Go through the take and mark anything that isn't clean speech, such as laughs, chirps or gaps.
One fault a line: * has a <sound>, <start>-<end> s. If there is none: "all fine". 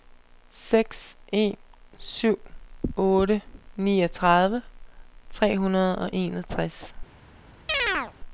* has a chirp, 7.7-8.1 s